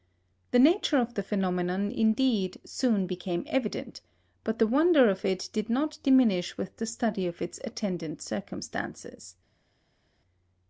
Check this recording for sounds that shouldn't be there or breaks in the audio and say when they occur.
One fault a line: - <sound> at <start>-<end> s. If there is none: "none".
none